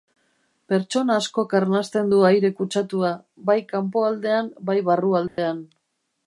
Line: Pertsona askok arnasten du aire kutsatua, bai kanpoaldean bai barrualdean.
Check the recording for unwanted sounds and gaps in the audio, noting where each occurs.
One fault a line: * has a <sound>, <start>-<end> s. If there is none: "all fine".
* has a dropout, 5.3-5.4 s